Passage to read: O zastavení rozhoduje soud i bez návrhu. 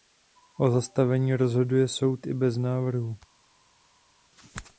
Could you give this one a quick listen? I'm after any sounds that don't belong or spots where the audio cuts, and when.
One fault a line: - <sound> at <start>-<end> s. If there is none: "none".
none